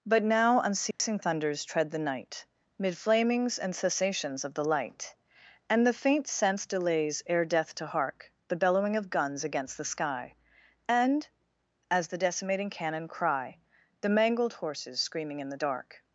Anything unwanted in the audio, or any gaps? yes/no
yes